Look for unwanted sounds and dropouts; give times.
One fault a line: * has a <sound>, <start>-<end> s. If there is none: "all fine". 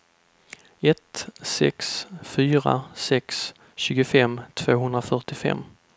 all fine